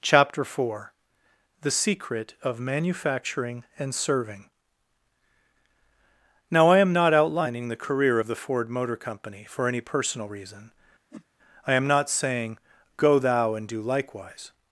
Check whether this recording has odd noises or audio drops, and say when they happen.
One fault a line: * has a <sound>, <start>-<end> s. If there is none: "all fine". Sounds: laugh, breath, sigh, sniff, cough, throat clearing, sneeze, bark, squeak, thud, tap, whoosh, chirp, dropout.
* has a whoosh, 11.1-11.3 s